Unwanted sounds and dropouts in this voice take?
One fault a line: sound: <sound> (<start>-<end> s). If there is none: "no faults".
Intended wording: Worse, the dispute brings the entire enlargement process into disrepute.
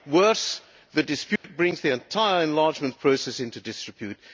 sound: dropout (1.4-1.4 s)